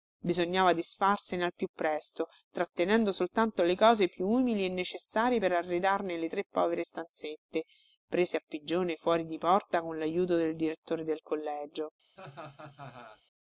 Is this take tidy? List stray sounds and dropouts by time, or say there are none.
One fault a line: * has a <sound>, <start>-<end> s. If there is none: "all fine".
* has a laugh, 12.2-13.2 s